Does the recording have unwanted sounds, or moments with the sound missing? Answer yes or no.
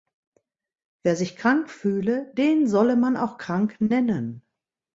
no